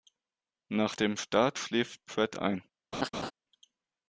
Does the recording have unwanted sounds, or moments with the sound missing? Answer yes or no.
yes